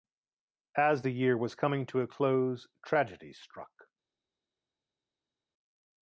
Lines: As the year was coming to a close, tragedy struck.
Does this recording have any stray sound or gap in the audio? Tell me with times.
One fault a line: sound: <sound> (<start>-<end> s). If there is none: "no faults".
no faults